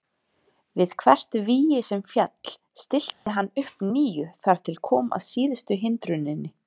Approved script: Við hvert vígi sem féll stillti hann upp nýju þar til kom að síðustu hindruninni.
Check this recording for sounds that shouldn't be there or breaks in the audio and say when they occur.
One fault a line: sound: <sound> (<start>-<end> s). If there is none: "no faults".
sound: dropout (3.1-3.3 s)